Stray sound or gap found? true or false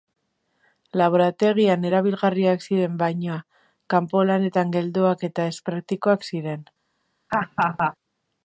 true